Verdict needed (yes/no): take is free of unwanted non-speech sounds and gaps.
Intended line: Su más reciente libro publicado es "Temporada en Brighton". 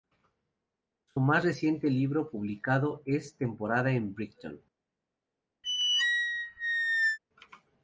no